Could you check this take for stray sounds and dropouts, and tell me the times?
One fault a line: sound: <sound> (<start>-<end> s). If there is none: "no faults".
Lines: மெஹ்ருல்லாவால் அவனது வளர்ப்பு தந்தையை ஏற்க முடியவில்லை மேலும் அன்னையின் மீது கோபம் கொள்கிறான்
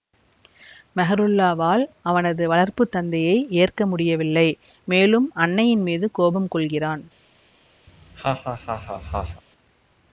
sound: laugh (7.9-9.4 s)